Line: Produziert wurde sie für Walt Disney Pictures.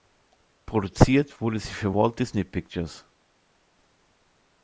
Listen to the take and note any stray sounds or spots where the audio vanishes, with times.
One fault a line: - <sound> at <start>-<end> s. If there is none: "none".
none